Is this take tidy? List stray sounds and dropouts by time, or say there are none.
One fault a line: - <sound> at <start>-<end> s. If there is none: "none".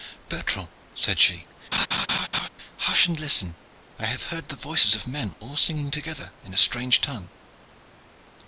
- laugh at 1.7-2.5 s